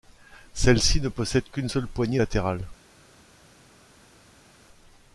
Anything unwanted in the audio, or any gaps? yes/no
no